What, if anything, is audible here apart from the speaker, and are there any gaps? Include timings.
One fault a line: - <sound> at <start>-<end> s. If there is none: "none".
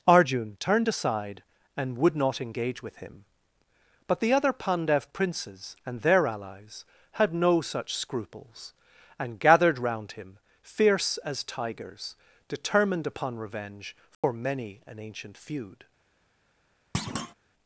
- dropout at 14.1-14.2 s
- thud at 16.9-17.3 s